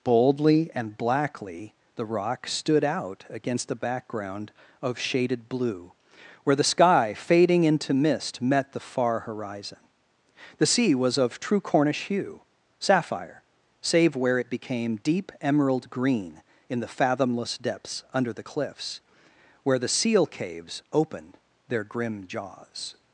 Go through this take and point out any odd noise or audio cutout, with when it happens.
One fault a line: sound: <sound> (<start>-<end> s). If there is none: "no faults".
no faults